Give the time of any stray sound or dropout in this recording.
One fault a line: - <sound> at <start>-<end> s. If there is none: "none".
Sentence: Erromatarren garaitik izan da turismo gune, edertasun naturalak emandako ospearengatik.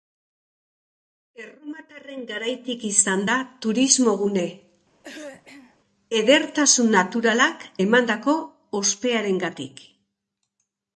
- throat clearing at 5.0-5.8 s